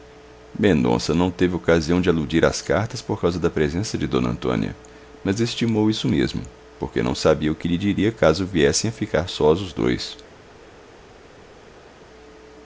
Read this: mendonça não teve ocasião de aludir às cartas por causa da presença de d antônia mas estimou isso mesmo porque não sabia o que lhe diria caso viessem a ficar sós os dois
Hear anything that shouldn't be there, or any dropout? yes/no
no